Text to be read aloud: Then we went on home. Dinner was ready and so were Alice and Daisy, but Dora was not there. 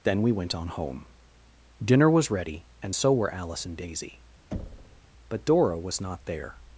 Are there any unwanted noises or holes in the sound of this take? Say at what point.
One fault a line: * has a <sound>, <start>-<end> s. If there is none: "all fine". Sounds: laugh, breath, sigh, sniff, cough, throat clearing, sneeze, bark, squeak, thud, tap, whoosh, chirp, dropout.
* has a thud, 4.5-5.0 s